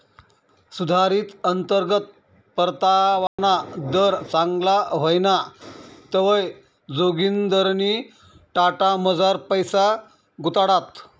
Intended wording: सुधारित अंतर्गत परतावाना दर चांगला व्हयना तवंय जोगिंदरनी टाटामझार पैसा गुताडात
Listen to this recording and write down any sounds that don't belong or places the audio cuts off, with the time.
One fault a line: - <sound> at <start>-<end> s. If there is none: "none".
- dropout at 3.3-3.4 s